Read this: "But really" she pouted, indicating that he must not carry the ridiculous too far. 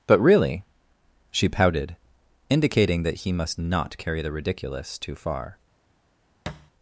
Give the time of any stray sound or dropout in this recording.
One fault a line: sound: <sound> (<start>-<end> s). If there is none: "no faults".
sound: thud (6.5-6.7 s)